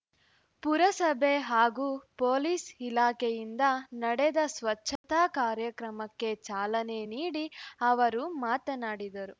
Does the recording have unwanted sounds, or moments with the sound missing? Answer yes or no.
yes